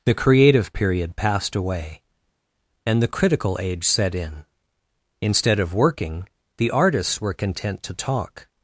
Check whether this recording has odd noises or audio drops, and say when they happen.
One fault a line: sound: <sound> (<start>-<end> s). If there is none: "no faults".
no faults